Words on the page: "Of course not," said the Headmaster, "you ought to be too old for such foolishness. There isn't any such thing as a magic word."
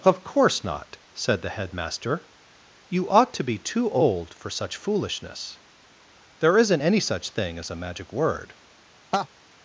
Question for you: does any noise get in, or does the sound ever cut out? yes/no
yes